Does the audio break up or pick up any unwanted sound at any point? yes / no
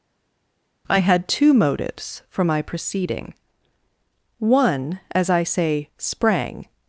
no